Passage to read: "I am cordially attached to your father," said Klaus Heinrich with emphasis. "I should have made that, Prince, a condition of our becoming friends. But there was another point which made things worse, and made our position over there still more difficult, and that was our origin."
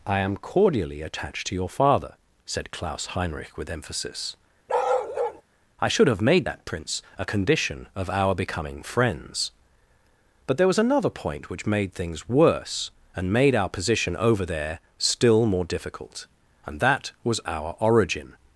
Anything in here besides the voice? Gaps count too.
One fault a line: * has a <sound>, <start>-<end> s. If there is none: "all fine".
* has a bark, 4.7-5.4 s